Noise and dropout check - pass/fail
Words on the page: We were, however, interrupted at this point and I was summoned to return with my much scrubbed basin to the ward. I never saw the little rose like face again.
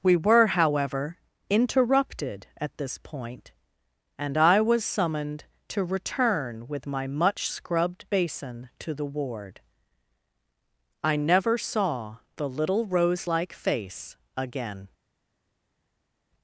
pass